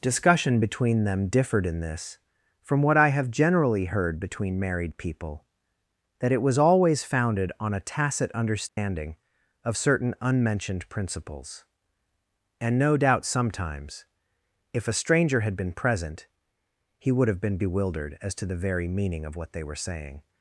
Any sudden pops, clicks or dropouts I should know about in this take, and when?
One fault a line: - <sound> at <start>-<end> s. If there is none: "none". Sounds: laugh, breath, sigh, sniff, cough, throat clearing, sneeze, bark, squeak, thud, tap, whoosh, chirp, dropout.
- dropout at 8.7-8.8 s